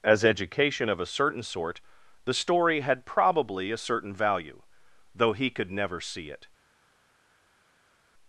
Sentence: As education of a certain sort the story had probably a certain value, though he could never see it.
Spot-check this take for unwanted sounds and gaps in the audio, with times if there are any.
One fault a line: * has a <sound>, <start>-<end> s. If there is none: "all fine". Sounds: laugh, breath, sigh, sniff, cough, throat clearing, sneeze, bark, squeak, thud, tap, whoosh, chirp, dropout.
all fine